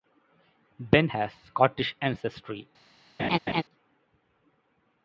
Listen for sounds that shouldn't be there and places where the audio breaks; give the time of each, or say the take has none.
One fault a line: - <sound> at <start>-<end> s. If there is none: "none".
- laugh at 3.2-3.6 s